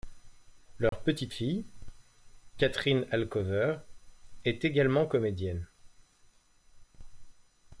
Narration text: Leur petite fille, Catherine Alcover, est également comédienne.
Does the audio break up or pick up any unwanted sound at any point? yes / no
yes